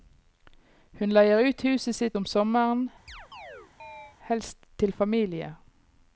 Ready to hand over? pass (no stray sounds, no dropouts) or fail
fail